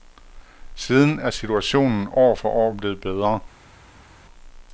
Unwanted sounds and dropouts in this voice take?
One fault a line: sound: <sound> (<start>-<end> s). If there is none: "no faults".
no faults